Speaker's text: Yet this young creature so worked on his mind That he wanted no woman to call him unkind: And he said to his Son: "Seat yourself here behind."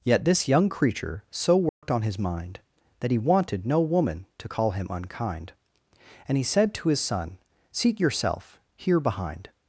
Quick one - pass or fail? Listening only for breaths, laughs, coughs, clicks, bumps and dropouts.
fail